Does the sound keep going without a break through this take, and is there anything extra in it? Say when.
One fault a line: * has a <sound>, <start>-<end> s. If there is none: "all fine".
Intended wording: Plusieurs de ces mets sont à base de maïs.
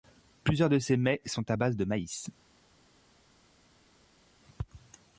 all fine